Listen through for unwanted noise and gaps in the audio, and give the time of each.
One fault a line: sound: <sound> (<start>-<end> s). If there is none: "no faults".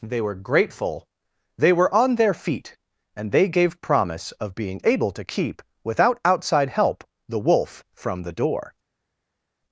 no faults